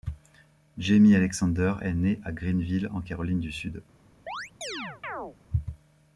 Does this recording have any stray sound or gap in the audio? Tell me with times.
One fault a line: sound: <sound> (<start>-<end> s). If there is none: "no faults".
sound: chirp (4.3-5.4 s)